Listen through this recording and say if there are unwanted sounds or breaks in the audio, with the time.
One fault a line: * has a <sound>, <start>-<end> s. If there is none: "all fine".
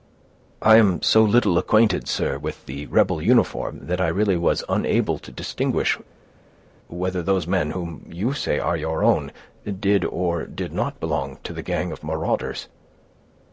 all fine